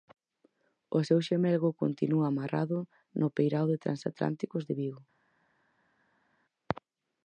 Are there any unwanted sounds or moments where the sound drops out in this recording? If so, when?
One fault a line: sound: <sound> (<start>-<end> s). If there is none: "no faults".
no faults